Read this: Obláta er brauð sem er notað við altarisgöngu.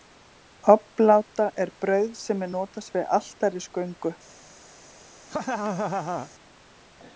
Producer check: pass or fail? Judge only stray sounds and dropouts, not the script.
fail